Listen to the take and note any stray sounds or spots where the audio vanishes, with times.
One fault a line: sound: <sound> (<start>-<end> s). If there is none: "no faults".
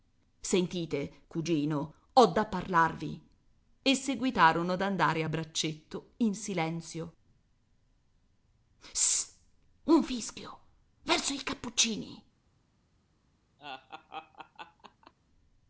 sound: laugh (13.6-15.1 s)